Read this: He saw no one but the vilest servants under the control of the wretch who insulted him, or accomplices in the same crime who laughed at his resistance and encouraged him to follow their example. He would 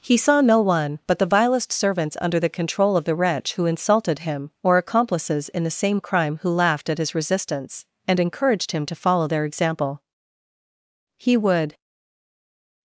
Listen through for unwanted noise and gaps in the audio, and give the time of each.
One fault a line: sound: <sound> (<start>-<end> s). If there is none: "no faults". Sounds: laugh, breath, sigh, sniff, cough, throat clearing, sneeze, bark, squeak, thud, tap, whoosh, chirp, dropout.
no faults